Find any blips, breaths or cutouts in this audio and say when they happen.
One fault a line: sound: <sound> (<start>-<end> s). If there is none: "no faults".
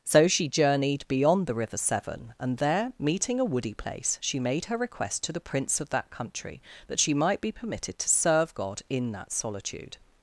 no faults